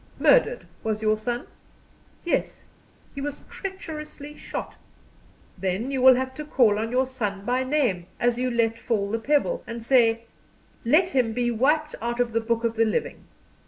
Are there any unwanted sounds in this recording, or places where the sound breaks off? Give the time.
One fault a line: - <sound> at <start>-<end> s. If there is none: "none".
none